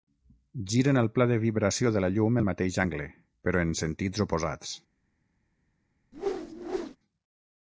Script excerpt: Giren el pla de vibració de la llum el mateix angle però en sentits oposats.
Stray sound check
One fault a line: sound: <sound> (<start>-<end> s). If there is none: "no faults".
sound: whoosh (6.1-7.0 s)